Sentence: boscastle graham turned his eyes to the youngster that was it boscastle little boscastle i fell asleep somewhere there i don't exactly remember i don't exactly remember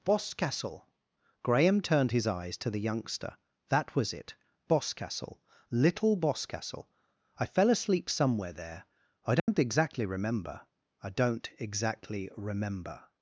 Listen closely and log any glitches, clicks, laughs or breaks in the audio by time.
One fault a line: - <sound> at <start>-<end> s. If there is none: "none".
- dropout at 9.4-9.5 s